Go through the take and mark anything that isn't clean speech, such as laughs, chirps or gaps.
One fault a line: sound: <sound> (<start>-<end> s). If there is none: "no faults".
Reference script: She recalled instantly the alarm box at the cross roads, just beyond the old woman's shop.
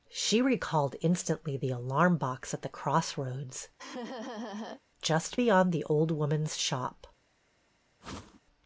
sound: laugh (3.8-4.8 s)
sound: whoosh (8.0-8.4 s)